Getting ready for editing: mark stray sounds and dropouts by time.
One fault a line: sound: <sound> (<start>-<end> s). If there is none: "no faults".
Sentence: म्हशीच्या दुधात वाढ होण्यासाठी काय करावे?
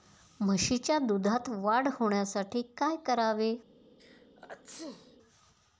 sound: sneeze (4.0-5.2 s)